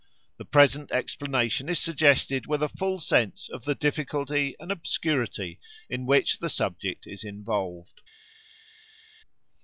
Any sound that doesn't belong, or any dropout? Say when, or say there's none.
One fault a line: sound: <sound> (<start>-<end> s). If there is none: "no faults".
no faults